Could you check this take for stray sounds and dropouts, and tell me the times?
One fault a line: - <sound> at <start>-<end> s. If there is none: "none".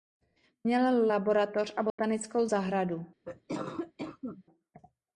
- dropout at 1.9-2.0 s
- cough at 3.2-4.4 s